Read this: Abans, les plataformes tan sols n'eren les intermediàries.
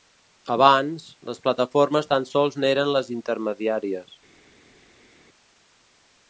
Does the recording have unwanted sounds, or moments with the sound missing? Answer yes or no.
no